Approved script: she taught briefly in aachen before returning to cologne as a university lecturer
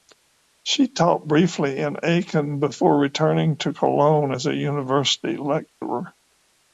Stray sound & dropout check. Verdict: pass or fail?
fail